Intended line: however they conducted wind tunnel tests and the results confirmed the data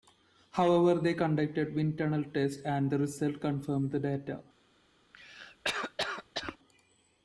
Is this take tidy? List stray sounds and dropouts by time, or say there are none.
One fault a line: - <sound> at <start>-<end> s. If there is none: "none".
- cough at 5.1-6.6 s